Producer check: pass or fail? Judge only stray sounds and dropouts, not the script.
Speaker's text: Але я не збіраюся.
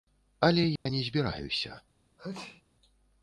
fail